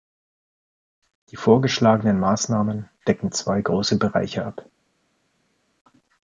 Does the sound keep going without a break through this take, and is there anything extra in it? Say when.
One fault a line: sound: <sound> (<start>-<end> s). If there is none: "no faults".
no faults